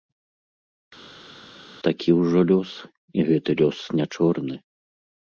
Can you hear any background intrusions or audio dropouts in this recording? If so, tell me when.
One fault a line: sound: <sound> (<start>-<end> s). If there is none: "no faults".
no faults